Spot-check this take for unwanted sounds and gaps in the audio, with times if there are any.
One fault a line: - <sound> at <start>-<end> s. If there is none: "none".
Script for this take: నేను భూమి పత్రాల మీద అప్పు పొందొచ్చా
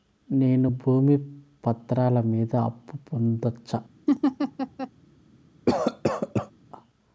- laugh at 4.1-4.9 s
- cough at 5.7-6.5 s